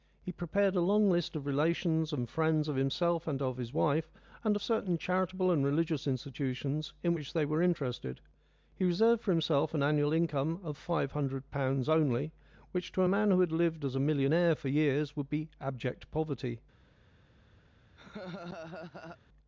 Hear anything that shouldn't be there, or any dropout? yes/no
yes